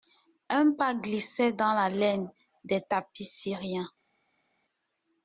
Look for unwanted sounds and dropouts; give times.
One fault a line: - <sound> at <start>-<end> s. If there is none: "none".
none